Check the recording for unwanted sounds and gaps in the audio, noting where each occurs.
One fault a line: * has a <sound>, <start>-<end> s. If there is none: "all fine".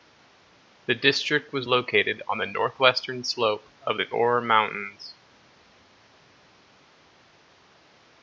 all fine